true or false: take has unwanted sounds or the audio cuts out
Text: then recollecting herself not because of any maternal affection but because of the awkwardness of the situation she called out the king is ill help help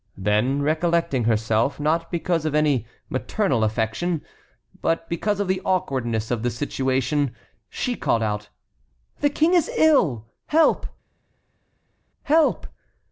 false